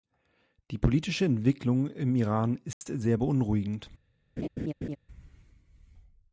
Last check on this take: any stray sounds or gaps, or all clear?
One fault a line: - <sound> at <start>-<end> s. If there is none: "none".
- dropout at 2.7-2.8 s
- laugh at 4.4-5.0 s